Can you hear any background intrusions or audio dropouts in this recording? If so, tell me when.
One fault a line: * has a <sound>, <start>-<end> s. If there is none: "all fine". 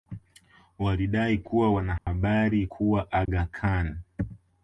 * has a dropout, 2.0-2.1 s
* has a dropout, 3.3-3.3 s